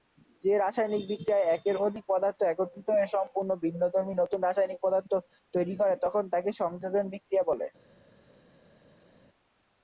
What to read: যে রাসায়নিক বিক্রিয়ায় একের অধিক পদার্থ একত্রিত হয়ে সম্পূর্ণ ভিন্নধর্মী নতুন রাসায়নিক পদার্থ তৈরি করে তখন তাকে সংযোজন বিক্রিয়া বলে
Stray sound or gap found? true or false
false